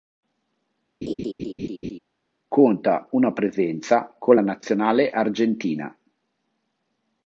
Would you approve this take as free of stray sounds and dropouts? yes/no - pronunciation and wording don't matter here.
no